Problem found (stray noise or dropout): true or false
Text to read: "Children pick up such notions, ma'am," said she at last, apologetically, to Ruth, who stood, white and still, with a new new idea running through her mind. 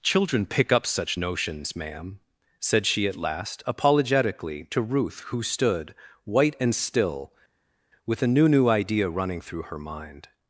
false